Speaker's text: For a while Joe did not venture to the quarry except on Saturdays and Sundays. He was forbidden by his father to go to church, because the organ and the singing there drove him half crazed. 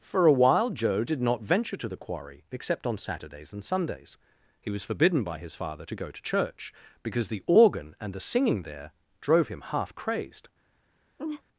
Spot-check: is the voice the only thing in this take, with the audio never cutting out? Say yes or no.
no